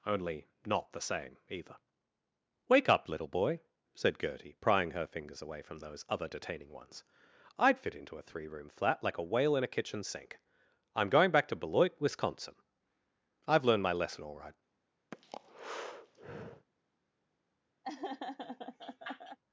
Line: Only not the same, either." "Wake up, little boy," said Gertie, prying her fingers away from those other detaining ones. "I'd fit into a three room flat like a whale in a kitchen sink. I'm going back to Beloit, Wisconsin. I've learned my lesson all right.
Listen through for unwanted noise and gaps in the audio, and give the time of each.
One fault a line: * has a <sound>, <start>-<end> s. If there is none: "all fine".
* has a breath, 15.1-16.7 s
* has a laugh, 17.8-19.4 s